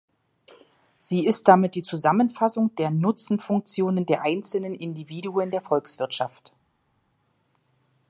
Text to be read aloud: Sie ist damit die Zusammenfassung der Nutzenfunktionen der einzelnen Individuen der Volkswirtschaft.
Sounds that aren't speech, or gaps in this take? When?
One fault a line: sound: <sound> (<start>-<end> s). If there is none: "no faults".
no faults